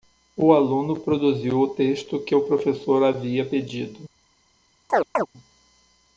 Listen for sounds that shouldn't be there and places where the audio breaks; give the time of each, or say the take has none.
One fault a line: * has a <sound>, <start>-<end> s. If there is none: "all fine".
* has a chirp, 4.9-5.3 s